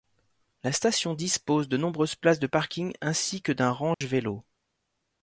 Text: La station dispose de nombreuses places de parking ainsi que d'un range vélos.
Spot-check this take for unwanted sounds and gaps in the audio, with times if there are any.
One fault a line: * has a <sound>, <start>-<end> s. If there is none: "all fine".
* has a dropout, 3.9-4.0 s